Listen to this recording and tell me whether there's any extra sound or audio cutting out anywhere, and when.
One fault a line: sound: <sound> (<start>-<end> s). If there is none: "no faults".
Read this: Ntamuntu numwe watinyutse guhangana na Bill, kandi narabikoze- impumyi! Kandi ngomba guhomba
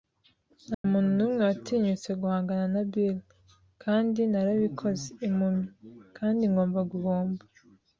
sound: dropout (0.7-0.8 s)